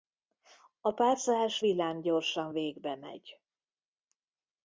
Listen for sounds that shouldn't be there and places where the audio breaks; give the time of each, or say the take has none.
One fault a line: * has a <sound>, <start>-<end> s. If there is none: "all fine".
all fine